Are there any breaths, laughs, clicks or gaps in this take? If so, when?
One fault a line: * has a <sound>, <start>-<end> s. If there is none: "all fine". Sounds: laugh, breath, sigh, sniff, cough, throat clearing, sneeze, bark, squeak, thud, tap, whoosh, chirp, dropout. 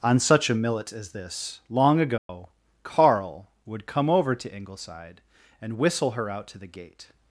* has a dropout, 2.2-2.3 s